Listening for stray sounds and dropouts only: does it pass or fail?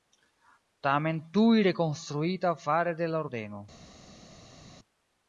pass